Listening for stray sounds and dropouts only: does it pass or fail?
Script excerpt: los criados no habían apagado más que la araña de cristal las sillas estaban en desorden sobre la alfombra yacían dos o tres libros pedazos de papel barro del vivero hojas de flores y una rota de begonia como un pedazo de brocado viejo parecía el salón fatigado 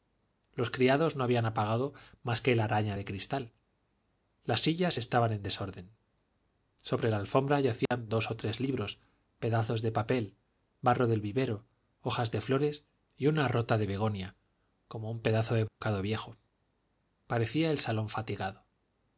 fail